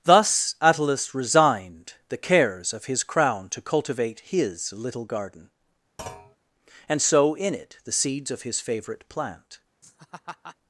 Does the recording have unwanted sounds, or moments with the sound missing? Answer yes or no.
yes